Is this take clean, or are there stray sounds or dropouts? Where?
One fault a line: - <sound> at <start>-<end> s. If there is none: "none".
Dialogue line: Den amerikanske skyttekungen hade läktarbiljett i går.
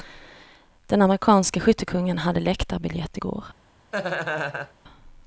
- laugh at 3.9-4.7 s